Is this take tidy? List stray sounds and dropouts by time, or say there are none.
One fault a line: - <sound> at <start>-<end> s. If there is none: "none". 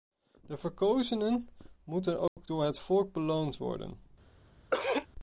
- dropout at 2.3-2.4 s
- throat clearing at 4.7-5.1 s